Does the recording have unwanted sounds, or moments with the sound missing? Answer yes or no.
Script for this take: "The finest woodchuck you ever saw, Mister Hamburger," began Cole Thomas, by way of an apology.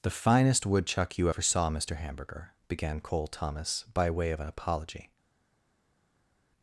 no